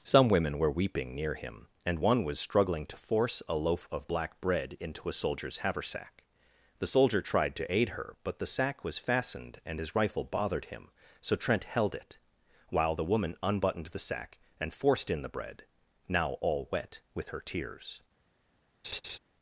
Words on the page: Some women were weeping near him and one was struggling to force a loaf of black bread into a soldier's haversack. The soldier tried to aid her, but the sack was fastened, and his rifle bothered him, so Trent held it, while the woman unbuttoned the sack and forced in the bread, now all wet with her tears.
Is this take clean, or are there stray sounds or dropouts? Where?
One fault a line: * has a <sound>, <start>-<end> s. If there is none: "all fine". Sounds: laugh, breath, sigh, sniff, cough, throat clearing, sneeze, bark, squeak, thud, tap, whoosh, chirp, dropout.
* has a laugh, 18.8-19.2 s